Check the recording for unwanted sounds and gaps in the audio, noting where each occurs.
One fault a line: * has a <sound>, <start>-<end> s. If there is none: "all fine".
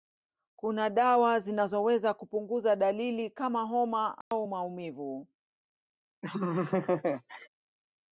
* has a dropout, 4.2-4.3 s
* has a laugh, 6.2-7.5 s